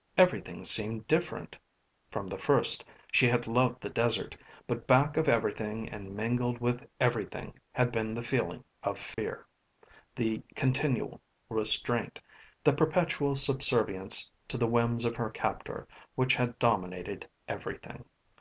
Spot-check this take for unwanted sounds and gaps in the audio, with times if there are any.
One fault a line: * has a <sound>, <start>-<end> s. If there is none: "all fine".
* has a dropout, 9.1-9.2 s